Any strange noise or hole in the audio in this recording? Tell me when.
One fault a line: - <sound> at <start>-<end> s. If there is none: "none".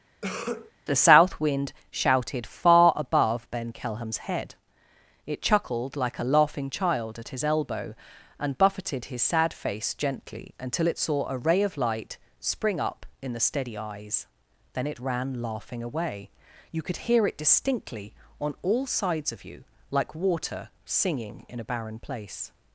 - cough at 0.2-0.7 s